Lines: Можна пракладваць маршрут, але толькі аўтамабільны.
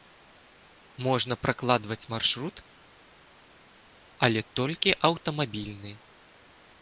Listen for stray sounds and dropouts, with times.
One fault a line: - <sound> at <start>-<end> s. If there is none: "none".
none